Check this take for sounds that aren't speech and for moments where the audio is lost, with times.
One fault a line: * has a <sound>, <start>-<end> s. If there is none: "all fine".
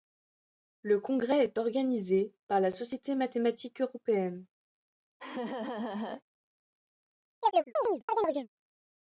* has a laugh, 5.2-6.2 s
* has a chirp, 7.4-8.5 s